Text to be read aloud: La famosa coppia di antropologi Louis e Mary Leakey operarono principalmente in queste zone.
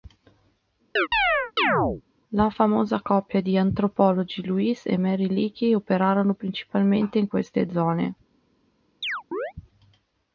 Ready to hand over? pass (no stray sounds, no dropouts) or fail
fail